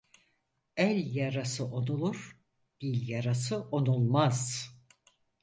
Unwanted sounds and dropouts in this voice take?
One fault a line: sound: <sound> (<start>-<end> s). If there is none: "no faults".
no faults